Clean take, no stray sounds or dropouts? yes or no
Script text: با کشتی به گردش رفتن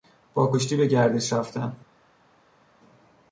yes